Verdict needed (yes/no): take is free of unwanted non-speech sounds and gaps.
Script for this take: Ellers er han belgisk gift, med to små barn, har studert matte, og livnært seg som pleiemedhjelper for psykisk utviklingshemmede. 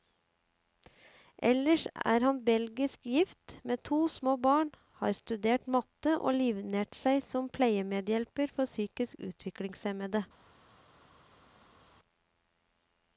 yes